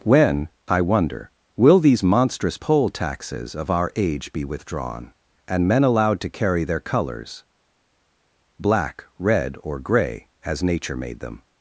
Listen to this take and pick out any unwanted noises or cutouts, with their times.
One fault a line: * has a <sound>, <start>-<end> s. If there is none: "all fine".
all fine